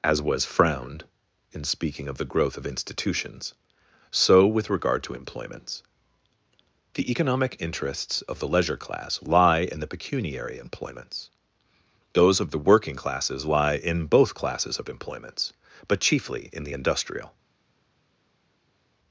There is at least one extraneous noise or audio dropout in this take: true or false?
false